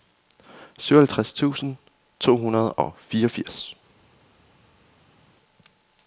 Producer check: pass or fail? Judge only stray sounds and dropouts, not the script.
pass